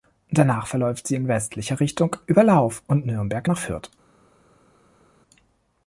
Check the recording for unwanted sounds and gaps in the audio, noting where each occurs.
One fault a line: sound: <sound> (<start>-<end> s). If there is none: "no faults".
no faults